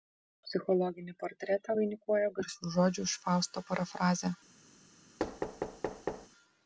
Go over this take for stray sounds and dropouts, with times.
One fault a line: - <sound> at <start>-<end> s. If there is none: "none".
- thud at 5.2-6.3 s